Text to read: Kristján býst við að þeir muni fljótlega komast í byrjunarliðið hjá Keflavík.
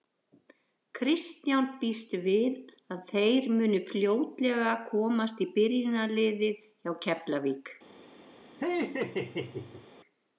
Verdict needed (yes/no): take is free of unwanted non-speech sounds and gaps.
no